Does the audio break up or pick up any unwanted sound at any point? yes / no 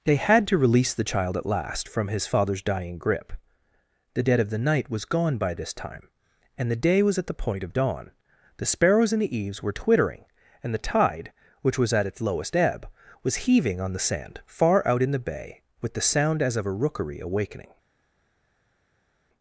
no